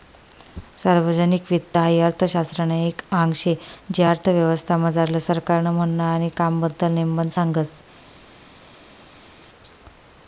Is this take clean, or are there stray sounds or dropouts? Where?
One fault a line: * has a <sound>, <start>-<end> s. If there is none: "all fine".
all fine